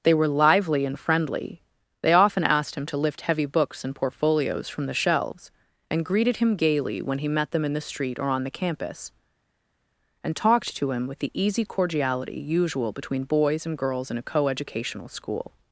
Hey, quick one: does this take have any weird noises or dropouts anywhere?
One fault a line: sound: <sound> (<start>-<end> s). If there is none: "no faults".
no faults